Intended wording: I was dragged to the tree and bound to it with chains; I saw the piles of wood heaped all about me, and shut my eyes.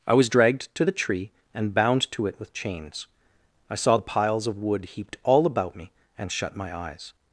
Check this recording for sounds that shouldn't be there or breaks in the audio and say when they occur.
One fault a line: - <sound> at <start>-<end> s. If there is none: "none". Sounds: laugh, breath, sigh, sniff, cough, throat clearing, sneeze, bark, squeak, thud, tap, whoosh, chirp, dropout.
none